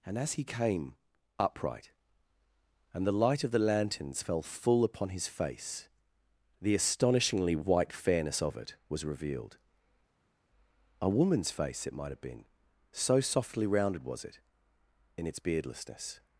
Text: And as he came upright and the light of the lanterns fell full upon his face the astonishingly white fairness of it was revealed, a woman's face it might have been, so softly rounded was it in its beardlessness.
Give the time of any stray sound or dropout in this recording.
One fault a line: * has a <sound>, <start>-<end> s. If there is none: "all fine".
all fine